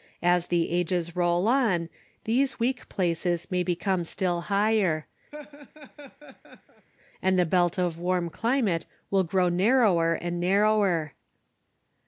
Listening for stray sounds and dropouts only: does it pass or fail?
fail